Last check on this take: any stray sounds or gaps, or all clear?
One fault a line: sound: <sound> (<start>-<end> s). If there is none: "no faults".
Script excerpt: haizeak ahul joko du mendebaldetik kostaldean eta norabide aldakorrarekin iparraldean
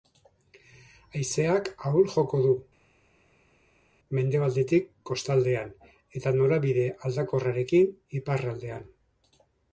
no faults